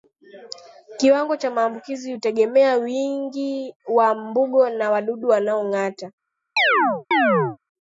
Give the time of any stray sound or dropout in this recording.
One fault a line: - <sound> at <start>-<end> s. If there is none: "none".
- chirp at 6.6-7.6 s